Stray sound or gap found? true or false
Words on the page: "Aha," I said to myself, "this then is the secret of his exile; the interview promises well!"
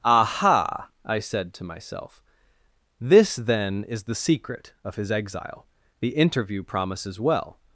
false